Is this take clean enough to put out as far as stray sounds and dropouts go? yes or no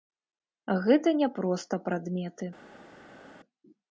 yes